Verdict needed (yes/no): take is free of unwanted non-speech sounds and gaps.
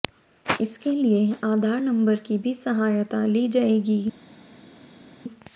yes